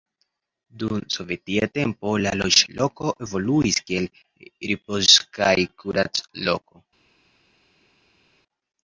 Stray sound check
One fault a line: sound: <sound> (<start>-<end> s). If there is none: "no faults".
no faults